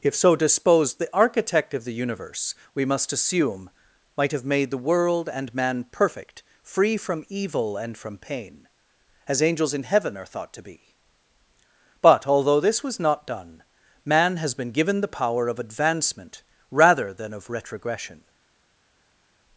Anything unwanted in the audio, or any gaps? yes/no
no